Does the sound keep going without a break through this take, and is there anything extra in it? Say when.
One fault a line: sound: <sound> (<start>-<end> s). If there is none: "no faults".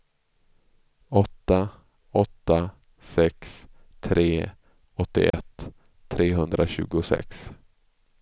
sound: dropout (5.3-5.3 s)